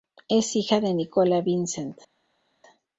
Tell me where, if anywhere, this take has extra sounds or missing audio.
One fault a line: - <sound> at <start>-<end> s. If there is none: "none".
none